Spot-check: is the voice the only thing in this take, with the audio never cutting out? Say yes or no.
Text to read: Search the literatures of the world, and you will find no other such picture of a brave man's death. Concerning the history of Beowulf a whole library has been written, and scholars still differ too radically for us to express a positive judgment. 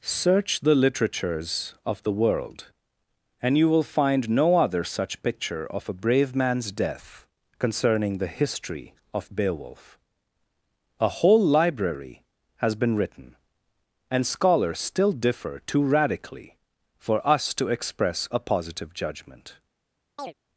no